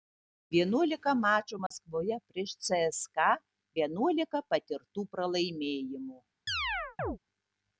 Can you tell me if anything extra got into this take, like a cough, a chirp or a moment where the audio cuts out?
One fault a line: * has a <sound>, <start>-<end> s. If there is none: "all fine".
* has a dropout, 1.7-1.7 s
* has a chirp, 6.5-7.2 s